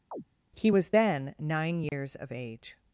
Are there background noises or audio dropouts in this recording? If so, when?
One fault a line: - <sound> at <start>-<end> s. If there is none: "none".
- chirp at 0.1-0.2 s
- dropout at 1.9-1.9 s